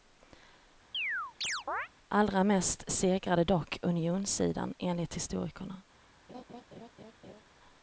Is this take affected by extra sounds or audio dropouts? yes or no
yes